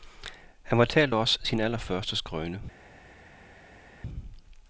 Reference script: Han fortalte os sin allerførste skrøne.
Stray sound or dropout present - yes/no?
no